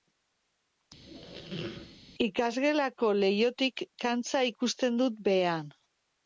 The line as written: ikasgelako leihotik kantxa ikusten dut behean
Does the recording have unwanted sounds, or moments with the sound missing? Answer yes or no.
yes